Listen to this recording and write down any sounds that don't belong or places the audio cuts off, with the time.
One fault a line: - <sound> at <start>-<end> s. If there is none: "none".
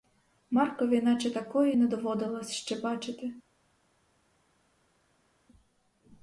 none